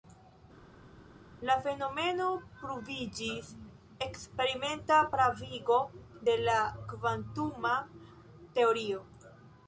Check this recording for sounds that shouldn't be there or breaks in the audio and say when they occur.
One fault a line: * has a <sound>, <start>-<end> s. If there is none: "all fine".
all fine